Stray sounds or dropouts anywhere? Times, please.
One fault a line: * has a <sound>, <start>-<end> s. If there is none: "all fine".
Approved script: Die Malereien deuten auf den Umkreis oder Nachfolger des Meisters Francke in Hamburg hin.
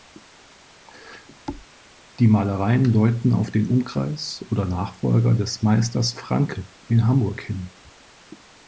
* has a thud, 1.5-1.7 s